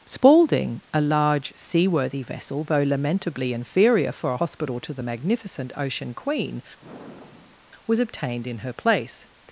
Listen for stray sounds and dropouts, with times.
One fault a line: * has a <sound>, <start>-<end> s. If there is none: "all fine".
* has a sigh, 6.8-7.6 s